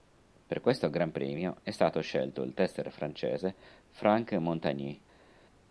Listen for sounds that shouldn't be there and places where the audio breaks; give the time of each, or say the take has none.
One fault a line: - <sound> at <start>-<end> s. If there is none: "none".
none